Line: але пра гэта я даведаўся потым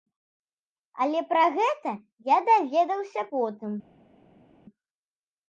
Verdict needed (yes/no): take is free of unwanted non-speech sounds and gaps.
yes